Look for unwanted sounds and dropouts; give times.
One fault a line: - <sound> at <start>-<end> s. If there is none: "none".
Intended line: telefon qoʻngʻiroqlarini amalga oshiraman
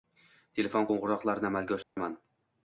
- dropout at 1.8-2.0 s